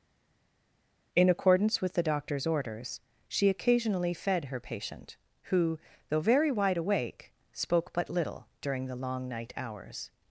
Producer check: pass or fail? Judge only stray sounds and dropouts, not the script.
pass